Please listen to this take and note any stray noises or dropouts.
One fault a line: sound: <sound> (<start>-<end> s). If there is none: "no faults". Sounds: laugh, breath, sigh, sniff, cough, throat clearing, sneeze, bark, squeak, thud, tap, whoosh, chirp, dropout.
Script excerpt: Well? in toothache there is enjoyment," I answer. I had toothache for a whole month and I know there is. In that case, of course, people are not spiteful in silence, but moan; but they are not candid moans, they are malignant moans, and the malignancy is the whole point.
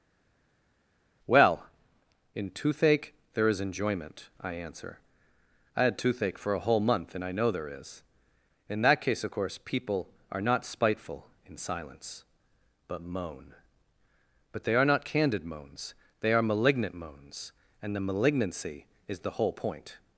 no faults